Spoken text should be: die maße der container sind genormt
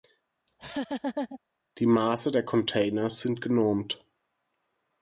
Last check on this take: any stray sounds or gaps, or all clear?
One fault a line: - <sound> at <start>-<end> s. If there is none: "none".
- laugh at 0.5-1.4 s